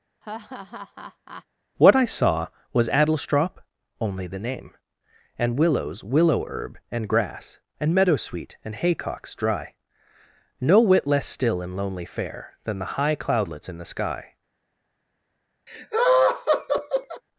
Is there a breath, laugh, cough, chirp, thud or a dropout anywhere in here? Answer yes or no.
yes